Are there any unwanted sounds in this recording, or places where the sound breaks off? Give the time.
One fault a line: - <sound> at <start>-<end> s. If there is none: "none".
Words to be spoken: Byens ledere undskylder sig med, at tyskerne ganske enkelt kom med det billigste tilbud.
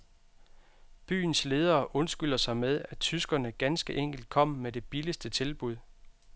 none